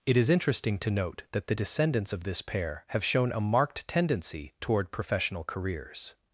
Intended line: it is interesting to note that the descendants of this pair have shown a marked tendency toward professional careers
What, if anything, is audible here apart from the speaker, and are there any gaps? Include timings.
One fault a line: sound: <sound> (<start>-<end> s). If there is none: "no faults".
no faults